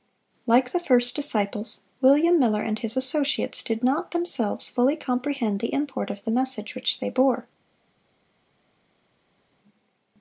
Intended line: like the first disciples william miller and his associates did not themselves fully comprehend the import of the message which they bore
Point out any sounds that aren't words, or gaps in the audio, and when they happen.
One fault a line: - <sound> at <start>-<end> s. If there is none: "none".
none